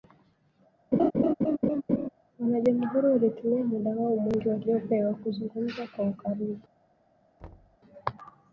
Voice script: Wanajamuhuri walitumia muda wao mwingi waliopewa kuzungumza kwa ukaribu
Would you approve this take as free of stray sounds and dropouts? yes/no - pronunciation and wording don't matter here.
no